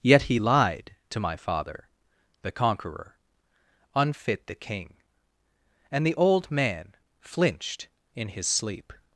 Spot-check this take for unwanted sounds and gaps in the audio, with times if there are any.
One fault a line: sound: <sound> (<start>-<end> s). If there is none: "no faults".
no faults